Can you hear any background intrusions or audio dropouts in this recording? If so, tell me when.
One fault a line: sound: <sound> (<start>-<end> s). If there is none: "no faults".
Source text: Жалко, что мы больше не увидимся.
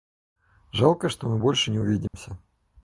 sound: dropout (2.1-2.1 s)